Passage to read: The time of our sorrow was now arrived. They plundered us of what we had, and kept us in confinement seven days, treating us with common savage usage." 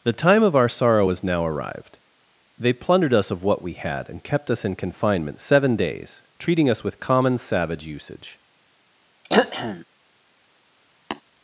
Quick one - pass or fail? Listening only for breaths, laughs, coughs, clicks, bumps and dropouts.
fail